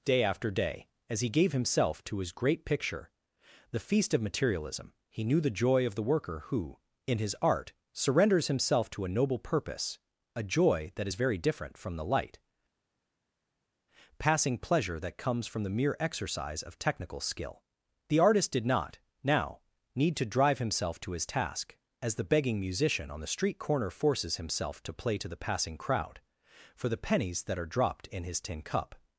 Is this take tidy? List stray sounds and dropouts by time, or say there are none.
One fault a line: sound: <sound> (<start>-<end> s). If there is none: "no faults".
no faults